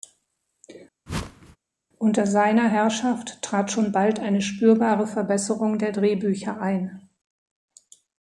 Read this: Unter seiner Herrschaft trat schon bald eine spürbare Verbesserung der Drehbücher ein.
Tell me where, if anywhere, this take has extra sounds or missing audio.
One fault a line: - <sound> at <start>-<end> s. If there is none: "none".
- whoosh at 1.1-1.6 s